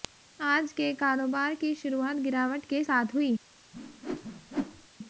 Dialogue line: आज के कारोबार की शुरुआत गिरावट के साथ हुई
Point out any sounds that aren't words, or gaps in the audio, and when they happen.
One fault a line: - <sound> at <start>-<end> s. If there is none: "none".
- whoosh at 3.7-4.9 s